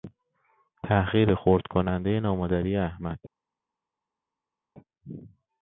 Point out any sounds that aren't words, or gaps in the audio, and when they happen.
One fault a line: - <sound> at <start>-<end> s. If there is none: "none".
none